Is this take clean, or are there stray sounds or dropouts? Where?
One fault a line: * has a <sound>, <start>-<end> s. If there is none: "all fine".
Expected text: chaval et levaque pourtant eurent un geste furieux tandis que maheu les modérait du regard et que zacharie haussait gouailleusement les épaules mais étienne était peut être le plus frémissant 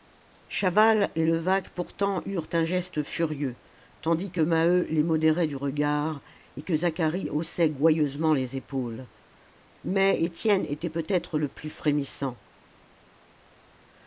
all fine